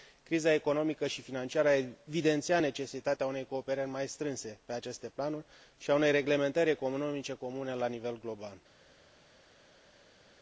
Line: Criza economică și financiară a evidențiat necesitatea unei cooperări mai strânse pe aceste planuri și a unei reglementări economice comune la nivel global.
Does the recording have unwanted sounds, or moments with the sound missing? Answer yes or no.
no